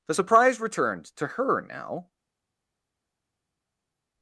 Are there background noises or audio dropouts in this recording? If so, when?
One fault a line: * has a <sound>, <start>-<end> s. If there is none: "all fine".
all fine